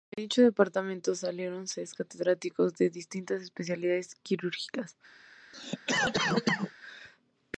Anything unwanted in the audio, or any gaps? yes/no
yes